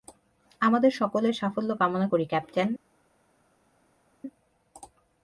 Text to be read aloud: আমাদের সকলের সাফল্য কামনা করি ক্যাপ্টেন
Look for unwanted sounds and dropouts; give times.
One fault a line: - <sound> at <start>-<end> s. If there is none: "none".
none